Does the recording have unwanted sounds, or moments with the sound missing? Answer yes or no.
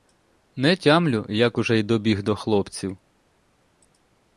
no